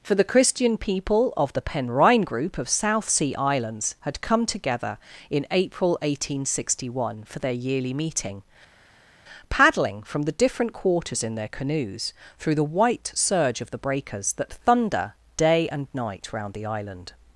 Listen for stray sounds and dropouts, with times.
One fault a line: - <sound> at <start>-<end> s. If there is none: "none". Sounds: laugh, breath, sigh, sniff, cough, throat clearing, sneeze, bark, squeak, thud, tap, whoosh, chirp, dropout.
none